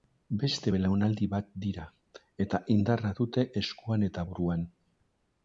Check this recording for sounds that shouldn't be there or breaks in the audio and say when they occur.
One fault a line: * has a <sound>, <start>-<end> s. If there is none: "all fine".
all fine